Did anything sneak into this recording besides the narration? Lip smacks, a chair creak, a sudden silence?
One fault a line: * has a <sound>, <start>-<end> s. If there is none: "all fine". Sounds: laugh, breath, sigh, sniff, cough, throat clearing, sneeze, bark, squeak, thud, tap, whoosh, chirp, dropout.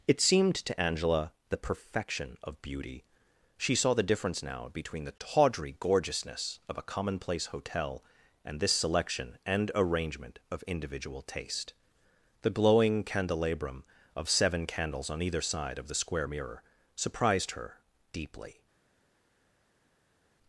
all fine